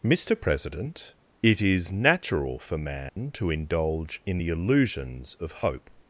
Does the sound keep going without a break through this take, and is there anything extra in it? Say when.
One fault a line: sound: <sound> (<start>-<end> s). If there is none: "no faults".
sound: dropout (3.1-3.2 s)